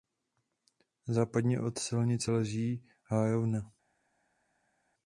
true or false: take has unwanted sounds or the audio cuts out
false